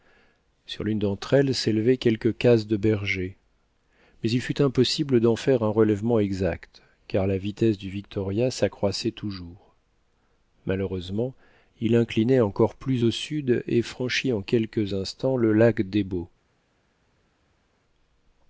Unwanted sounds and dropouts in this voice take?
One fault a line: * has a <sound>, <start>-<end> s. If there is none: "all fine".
all fine